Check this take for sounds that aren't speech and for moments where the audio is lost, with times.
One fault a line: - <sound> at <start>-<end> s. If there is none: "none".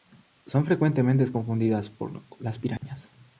- dropout at 2.8-2.8 s